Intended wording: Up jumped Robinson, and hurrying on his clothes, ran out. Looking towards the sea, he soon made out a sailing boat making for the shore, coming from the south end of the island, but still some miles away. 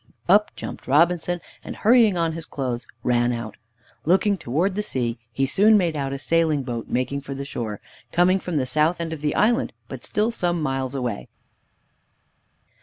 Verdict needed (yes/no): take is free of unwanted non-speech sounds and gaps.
yes